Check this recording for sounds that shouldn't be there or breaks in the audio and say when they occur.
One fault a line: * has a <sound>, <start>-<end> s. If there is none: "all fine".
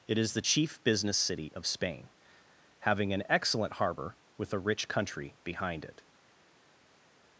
all fine